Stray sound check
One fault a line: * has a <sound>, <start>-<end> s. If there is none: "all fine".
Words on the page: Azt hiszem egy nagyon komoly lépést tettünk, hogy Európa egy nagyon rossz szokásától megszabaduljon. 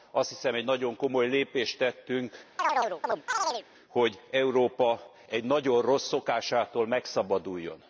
* has a chirp, 2.6-3.7 s